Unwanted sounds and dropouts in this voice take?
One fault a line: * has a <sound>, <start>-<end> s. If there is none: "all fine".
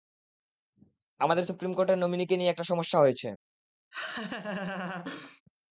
* has a laugh, 3.9-5.4 s